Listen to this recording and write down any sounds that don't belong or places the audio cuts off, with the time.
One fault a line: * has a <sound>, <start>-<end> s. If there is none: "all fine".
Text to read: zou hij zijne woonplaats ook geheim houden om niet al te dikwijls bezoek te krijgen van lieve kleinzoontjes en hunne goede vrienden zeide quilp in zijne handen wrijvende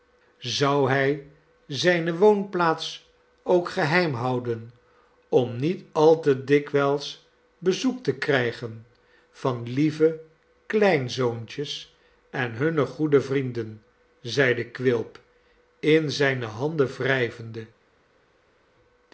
all fine